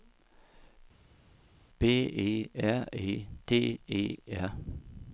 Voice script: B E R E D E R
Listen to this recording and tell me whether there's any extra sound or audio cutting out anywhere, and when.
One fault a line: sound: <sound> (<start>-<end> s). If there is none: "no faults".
no faults